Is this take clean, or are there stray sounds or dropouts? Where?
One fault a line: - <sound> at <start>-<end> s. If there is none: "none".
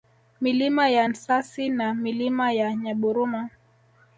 none